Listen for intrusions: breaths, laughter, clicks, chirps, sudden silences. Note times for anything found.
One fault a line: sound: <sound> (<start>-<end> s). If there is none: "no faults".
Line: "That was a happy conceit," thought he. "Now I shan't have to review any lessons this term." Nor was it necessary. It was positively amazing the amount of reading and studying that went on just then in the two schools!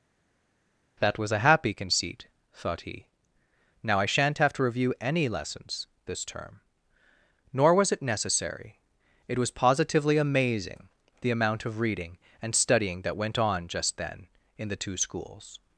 no faults